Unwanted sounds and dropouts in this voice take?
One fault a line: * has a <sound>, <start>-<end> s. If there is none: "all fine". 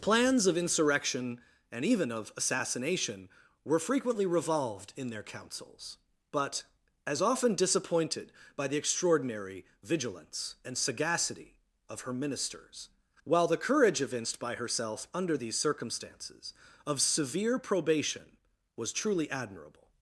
all fine